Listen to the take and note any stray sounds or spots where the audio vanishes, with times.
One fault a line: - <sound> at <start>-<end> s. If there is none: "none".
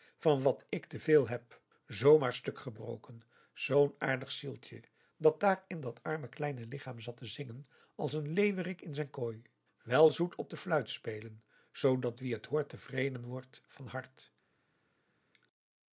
none